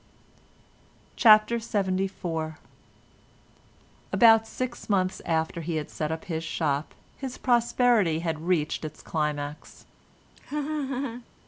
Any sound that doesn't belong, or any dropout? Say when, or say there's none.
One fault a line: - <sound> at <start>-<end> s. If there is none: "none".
- laugh at 10.4-11.3 s